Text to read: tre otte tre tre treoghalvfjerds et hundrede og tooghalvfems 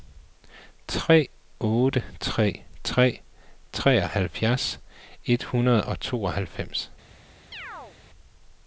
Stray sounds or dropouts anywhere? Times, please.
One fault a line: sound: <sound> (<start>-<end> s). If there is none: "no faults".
sound: chirp (7.5-8.0 s)